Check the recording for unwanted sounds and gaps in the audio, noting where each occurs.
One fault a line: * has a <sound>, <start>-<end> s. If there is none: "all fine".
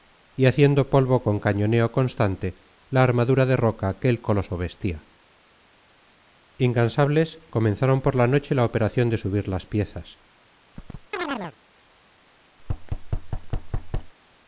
* has a chirp, 10.8-11.6 s
* has a thud, 12.6-14.1 s